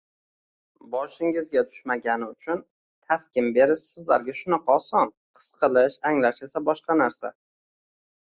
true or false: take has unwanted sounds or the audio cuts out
false